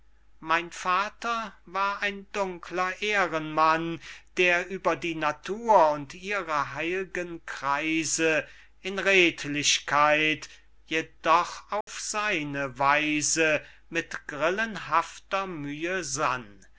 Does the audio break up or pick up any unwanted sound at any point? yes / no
yes